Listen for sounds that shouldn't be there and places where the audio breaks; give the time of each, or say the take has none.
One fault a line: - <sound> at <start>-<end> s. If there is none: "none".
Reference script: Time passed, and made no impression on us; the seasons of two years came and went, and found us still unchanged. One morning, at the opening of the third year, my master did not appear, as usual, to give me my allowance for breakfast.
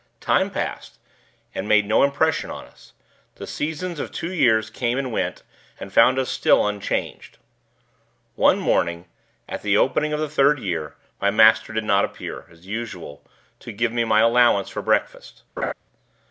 - laugh at 15.6-15.7 s